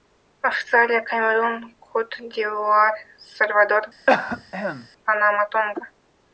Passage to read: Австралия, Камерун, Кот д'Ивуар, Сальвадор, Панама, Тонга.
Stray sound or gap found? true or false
true